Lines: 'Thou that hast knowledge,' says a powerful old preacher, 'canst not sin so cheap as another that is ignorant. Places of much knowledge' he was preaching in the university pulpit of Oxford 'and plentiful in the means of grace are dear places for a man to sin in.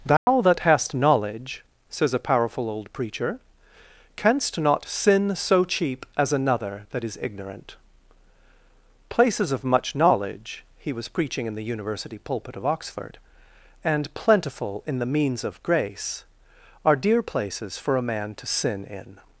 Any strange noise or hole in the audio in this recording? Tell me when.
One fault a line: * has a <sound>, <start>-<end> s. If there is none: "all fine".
* has a dropout, 0.2-0.3 s